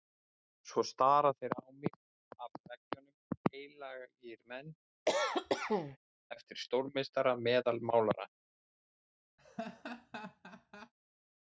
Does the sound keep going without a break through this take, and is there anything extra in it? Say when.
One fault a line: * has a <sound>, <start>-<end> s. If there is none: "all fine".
* has a cough, 5.1-6.0 s
* has a laugh, 9.4-10.9 s